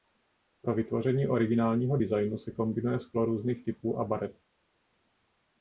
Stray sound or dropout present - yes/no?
no